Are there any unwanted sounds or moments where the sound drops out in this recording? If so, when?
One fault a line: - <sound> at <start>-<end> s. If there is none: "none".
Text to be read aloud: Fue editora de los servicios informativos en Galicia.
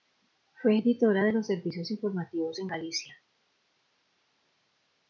none